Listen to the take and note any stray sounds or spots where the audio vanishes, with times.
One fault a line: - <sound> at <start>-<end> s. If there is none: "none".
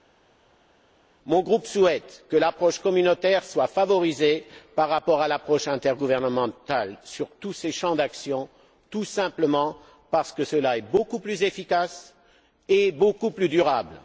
none